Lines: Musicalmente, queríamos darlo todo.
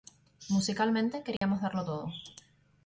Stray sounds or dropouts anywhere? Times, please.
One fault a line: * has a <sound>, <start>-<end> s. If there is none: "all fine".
* has a dropout, 1.4-1.4 s